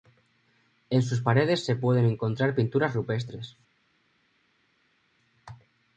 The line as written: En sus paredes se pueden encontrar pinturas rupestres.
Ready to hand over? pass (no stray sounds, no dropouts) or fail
pass